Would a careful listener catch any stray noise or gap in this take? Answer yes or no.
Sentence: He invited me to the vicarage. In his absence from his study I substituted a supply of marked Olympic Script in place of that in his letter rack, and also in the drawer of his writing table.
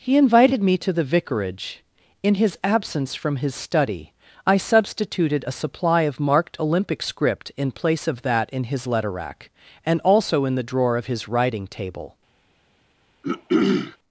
yes